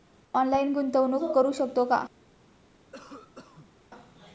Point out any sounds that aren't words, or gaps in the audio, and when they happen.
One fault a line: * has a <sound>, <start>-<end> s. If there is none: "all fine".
* has a cough, 2.9-3.8 s